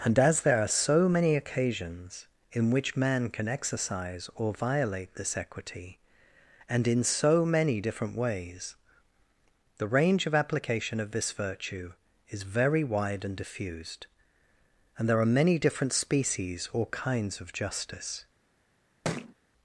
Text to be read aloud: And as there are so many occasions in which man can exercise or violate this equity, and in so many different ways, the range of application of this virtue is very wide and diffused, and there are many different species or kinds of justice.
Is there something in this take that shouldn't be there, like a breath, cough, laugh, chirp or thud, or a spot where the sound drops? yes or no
yes